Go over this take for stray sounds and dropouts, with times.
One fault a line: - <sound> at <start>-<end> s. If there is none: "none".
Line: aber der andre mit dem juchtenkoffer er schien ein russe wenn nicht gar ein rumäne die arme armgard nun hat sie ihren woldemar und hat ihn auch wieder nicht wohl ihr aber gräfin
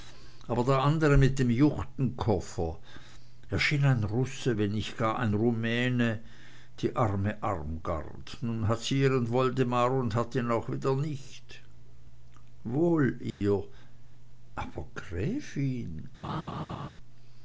- dropout at 13.3-13.4 s
- laugh at 16.2-16.9 s